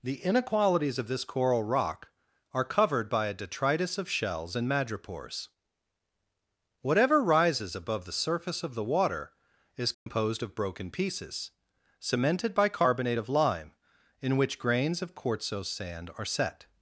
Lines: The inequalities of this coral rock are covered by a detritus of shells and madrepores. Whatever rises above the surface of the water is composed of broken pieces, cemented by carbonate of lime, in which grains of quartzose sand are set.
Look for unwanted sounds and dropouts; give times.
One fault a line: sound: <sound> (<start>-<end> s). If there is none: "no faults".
sound: dropout (9.9-10.1 s)